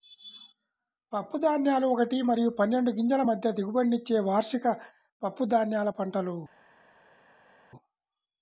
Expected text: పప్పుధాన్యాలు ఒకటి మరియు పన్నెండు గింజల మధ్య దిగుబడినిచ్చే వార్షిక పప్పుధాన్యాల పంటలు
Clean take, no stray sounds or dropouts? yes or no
yes